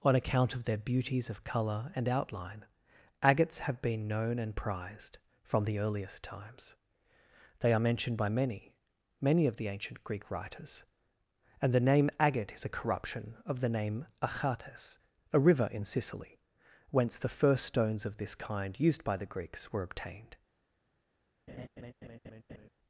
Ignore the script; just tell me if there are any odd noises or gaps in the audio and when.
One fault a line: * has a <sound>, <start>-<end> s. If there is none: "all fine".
* has a laugh, 21.5-22.7 s